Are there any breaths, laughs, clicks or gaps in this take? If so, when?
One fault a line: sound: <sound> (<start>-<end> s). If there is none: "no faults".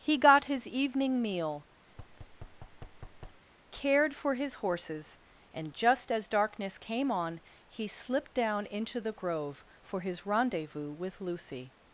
sound: thud (1.9-3.4 s)